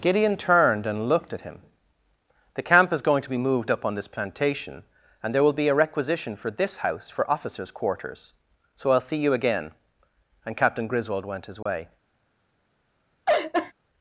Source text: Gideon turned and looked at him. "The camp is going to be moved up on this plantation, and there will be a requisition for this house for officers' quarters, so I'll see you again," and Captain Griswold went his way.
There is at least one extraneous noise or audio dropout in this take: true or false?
true